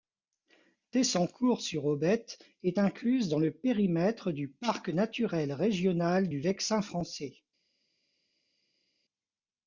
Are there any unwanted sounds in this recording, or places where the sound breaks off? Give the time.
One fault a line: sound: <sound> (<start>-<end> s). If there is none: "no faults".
no faults